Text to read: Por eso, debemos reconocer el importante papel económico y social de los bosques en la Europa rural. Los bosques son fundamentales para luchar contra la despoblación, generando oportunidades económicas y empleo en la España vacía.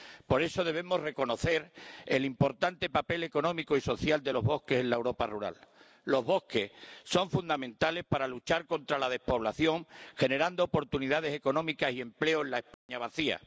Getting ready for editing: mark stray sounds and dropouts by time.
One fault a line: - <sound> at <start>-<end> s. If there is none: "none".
- dropout at 12.7-12.9 s